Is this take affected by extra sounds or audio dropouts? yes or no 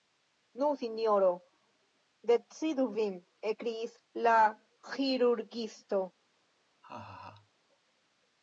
yes